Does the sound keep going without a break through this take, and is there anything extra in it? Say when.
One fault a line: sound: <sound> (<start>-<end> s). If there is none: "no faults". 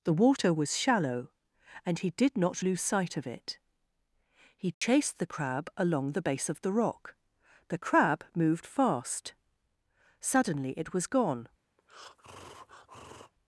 sound: dropout (4.7-4.8 s)
sound: breath (11.8-13.3 s)